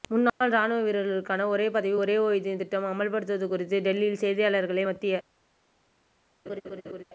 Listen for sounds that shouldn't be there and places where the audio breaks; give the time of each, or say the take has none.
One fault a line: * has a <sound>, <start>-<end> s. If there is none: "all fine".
* has a laugh, 6.5-7.0 s